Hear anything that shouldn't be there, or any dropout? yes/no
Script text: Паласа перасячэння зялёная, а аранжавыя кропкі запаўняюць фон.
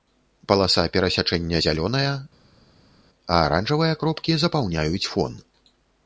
no